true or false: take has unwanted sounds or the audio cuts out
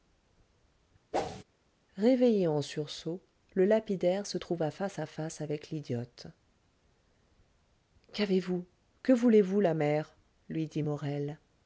true